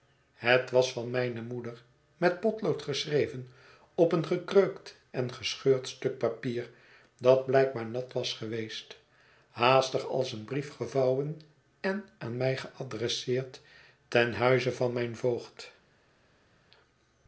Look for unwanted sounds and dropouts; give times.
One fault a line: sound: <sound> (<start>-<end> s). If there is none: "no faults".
no faults